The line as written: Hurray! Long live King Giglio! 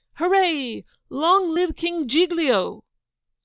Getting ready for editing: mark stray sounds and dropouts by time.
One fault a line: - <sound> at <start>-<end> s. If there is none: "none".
none